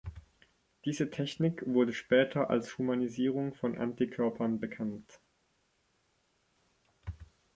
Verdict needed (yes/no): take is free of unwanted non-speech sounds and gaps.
yes